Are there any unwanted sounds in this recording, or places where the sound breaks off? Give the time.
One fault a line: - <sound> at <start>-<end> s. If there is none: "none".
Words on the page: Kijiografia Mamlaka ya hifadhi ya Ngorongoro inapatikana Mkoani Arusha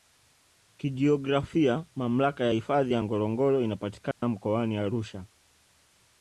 - dropout at 4.1-4.2 s